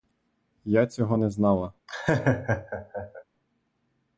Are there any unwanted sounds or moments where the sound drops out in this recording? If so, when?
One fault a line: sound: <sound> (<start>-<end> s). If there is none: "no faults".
sound: laugh (1.9-3.2 s)